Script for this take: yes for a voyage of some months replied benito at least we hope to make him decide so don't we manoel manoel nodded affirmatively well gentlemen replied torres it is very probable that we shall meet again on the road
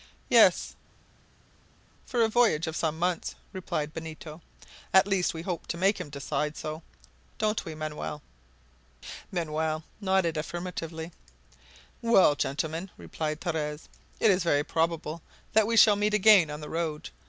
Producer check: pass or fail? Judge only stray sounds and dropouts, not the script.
pass